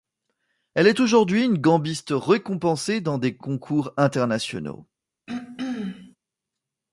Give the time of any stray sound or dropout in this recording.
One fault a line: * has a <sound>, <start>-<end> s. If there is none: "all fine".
* has a throat clearing, 5.3-6.2 s